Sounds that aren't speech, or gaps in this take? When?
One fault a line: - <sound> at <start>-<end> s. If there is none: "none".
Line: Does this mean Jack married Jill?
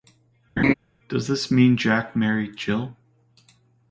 - laugh at 0.6-0.7 s